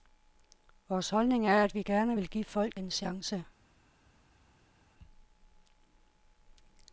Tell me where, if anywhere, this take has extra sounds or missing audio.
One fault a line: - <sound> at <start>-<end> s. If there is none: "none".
none